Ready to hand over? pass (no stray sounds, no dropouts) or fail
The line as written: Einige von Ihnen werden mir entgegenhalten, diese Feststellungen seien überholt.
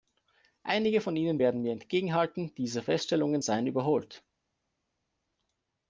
pass